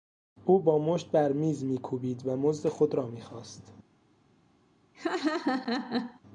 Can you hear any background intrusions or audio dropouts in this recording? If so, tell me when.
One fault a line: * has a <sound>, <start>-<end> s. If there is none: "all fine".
* has a laugh, 4.9-6.2 s